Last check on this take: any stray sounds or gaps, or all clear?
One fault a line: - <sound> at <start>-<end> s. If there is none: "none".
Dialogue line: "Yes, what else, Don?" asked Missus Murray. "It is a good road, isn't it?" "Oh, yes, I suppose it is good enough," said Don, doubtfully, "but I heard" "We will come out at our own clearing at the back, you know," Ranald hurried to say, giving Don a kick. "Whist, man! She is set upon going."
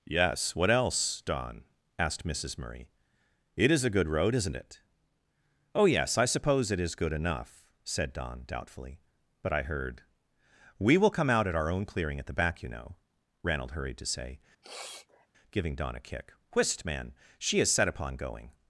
- sniff at 14.6-15.3 s